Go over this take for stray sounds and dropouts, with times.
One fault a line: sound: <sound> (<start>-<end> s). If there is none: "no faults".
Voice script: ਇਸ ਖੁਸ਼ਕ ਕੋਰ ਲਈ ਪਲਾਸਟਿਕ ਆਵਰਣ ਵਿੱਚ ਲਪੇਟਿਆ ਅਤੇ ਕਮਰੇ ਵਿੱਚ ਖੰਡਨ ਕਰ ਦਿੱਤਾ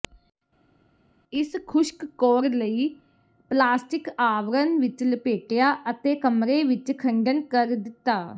no faults